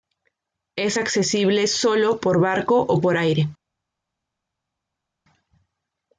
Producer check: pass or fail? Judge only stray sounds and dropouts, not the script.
pass